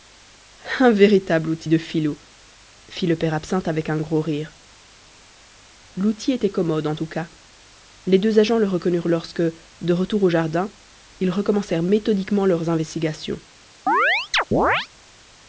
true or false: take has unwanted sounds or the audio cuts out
true